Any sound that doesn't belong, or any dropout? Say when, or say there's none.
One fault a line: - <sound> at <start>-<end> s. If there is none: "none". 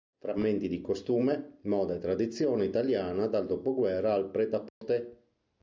- dropout at 4.7-4.8 s